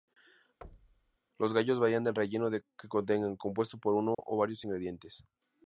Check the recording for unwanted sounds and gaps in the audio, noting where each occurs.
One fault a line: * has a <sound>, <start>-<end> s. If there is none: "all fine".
* has a thud, 0.6-1.2 s
* has a dropout, 4.1-4.2 s